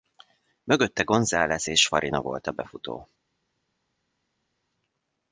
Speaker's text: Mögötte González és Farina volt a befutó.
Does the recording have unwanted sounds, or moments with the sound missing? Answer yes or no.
no